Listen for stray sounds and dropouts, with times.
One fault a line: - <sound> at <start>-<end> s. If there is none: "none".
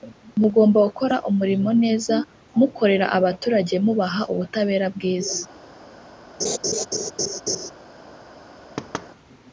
- laugh at 6.4-7.7 s
- thud at 8.8-9.1 s